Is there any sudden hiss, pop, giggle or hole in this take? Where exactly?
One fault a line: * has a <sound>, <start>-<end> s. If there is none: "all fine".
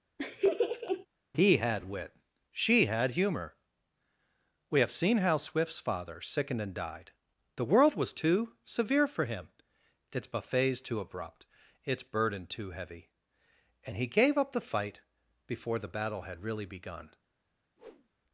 * has a laugh, 0.2-1.1 s
* has a whoosh, 17.8-18.1 s